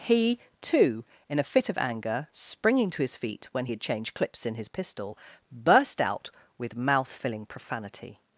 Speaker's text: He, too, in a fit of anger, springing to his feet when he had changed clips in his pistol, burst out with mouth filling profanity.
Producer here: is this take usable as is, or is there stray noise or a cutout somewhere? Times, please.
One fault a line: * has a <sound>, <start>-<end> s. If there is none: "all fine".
all fine